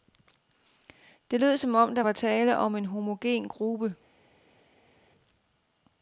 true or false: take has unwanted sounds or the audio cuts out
false